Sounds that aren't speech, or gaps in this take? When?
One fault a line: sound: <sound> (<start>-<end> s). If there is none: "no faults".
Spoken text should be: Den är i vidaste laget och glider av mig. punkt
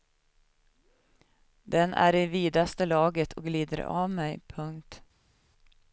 no faults